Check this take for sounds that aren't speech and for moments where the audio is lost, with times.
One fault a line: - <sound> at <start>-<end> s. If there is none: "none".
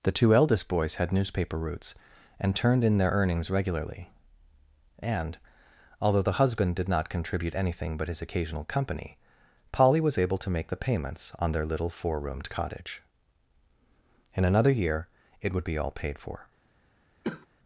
- cough at 17.2-17.5 s